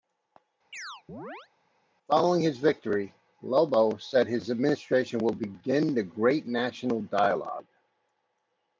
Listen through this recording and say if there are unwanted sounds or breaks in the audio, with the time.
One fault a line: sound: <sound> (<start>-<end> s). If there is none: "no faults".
sound: chirp (0.7-1.5 s)